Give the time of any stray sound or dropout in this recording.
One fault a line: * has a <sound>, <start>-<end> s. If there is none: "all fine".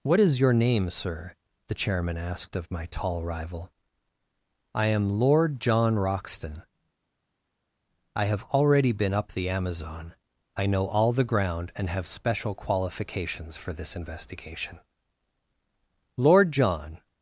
all fine